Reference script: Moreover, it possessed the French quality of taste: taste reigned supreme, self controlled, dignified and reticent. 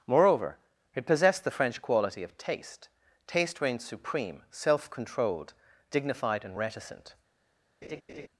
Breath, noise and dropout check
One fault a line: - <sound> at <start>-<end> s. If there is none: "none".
- laugh at 7.8-8.3 s